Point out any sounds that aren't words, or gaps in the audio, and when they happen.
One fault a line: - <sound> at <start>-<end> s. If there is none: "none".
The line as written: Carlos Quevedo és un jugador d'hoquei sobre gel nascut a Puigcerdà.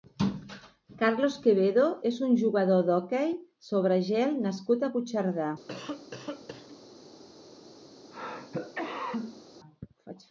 - cough at 5.7-6.8 s
- cough at 8.1-9.4 s